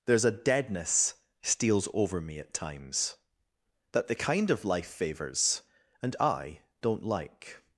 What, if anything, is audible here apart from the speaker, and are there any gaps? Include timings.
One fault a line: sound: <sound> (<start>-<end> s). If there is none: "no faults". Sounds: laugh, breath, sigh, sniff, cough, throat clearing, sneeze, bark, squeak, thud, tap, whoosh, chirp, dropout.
no faults